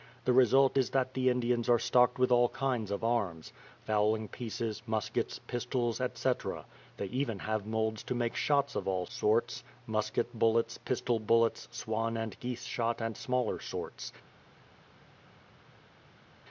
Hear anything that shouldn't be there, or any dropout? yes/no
no